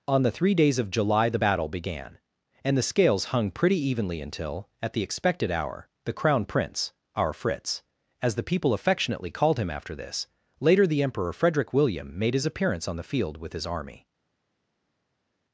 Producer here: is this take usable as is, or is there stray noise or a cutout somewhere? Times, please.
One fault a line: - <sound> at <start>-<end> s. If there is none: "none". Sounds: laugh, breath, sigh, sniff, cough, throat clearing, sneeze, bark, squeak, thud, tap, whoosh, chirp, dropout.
none